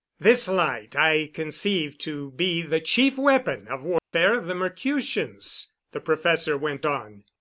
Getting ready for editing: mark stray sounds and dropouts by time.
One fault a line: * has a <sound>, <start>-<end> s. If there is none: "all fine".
* has a dropout, 4.0-4.1 s